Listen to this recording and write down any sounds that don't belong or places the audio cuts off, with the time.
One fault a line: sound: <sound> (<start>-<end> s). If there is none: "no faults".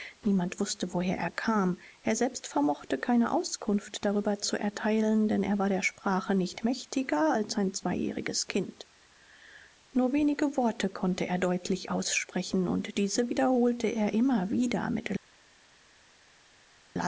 no faults